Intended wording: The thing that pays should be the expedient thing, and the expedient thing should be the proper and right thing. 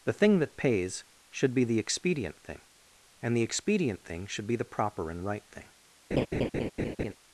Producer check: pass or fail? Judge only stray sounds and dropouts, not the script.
fail